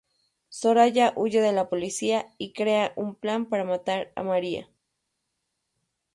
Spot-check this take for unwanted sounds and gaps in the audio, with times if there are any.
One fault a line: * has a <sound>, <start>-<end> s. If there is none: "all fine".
all fine